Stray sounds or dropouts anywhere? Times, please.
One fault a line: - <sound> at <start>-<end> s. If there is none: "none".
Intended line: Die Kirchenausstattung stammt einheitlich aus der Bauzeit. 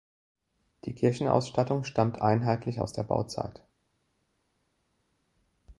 none